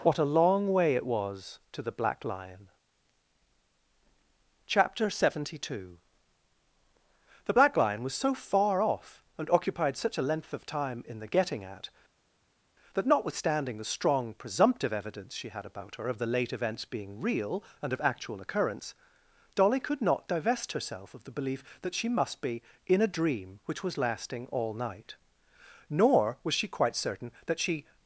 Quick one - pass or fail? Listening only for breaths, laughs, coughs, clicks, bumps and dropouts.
pass